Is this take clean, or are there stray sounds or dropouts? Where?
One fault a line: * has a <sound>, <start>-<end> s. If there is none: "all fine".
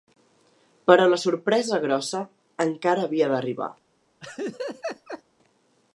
* has a laugh, 4.2-5.2 s